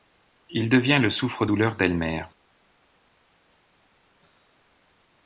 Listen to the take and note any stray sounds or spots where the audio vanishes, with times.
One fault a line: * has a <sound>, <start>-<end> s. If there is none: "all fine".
all fine